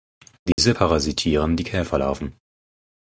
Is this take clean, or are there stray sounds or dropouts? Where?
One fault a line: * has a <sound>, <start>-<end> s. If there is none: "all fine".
* has a dropout, 0.5-0.6 s